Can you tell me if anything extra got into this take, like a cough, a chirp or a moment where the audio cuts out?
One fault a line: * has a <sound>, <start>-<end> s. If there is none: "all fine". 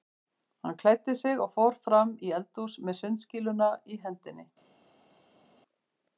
all fine